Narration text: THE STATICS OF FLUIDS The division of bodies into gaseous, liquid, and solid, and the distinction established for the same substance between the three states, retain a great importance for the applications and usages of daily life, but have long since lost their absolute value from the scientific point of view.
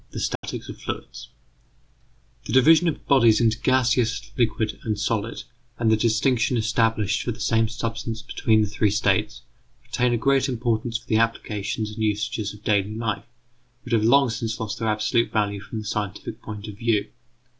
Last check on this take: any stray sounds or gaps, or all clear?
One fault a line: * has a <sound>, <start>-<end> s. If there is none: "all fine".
* has a dropout, 0.4-0.4 s